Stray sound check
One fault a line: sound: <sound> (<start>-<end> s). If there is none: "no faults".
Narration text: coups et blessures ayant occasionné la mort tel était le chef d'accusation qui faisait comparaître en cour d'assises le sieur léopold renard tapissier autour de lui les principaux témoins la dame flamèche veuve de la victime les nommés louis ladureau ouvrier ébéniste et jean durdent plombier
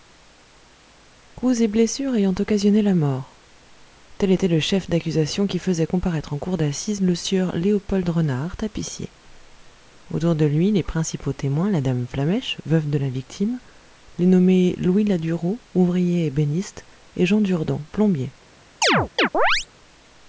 sound: chirp (18.8-19.7 s)